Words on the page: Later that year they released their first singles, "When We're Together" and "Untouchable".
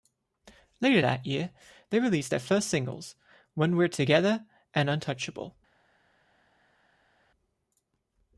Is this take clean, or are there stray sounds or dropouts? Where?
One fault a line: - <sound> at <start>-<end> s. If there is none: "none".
none